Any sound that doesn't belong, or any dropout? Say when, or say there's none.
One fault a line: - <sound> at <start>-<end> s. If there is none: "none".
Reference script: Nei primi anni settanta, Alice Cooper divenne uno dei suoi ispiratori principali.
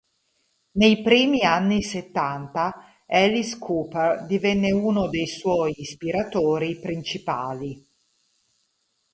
none